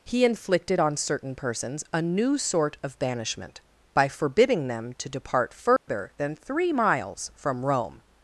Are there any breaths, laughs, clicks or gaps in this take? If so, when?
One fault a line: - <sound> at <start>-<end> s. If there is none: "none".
- dropout at 5.8-5.9 s